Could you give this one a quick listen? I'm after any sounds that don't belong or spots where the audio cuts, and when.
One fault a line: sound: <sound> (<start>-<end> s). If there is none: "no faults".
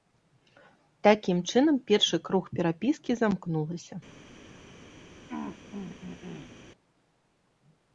sound: throat clearing (5.3-6.6 s)